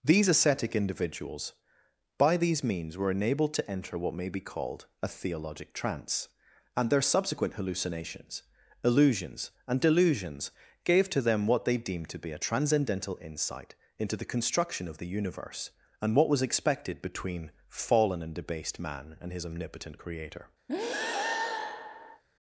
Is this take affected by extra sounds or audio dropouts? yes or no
yes